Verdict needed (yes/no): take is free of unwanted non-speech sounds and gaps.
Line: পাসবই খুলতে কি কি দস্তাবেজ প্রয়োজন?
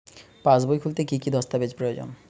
yes